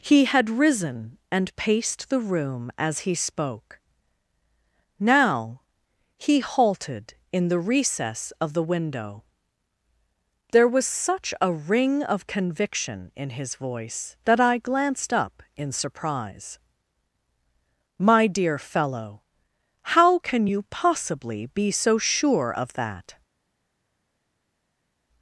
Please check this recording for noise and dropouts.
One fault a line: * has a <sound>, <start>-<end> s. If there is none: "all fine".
all fine